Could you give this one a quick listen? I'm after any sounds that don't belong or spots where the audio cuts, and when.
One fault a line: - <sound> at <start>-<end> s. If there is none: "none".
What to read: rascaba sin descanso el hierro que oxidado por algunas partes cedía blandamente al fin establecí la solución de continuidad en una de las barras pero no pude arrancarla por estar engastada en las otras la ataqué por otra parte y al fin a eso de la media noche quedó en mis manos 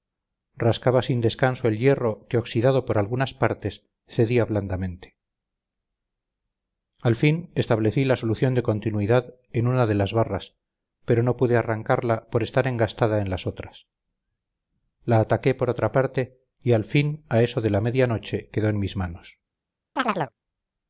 - chirp at 20.0-20.3 s